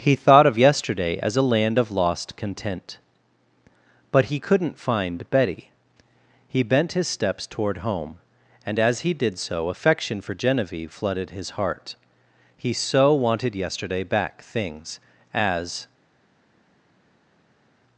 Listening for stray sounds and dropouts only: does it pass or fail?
pass